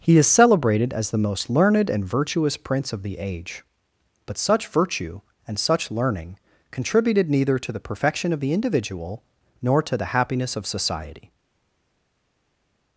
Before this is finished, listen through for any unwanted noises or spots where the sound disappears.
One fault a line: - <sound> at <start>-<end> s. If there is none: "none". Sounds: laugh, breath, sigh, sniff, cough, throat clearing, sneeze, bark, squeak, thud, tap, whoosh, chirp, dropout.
none